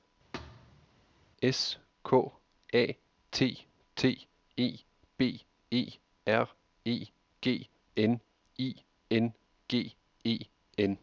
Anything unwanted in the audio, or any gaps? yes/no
yes